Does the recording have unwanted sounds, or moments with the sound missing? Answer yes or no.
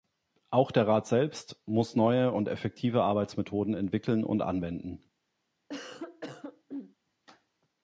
yes